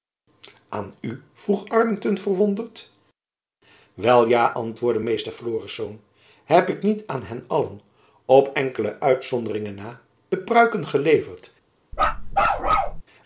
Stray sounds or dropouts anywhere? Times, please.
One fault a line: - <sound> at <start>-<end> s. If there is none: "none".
- bark at 11.9-13.0 s